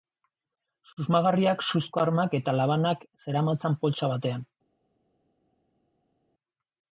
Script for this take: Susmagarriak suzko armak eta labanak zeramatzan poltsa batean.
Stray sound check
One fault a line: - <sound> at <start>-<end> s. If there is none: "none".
none